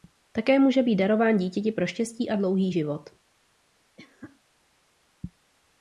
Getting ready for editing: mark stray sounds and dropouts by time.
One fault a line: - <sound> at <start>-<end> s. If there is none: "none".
- cough at 4.0-4.4 s